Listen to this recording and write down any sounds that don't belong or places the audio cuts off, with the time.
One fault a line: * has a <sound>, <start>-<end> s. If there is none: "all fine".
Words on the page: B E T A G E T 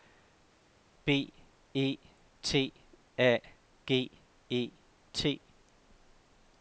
all fine